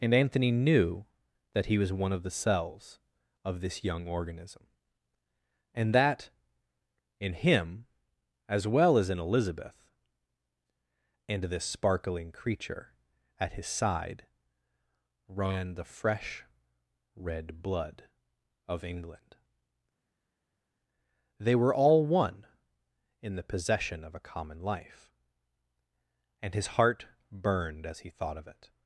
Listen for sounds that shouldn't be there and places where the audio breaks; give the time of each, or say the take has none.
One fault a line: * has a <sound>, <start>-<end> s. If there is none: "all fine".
all fine